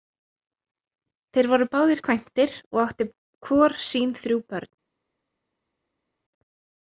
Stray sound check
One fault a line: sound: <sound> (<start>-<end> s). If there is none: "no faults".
no faults